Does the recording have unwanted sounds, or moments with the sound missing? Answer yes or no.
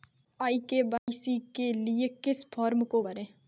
yes